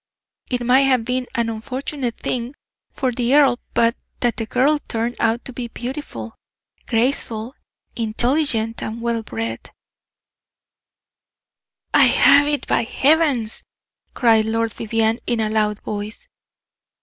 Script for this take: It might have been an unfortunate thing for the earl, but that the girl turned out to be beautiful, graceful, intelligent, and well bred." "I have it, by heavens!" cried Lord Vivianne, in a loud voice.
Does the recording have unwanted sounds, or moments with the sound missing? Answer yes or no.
no